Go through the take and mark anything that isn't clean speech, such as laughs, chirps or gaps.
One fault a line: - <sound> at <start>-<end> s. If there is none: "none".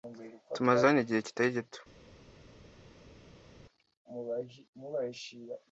none